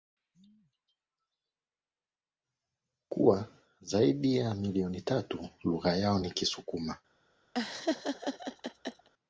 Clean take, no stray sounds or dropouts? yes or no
no